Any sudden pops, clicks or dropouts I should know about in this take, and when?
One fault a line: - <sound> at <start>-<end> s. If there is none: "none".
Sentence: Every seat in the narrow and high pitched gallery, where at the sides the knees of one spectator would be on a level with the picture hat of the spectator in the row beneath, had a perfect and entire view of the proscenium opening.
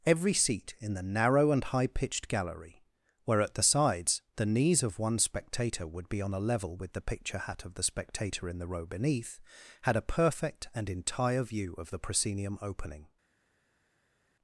none